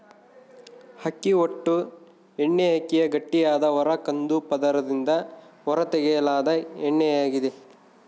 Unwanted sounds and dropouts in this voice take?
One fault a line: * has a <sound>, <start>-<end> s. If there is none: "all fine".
all fine